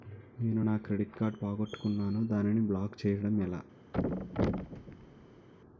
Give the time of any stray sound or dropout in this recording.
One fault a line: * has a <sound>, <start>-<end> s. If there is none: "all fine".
* has a thud, 3.9-5.5 s